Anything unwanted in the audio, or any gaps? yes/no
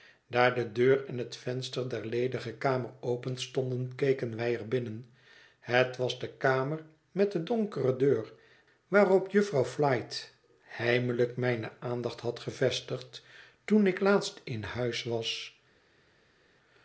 no